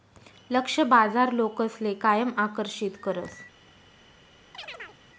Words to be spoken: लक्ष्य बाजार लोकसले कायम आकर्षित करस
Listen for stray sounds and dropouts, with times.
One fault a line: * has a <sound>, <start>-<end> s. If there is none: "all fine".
* has a chirp, 4.5-5.0 s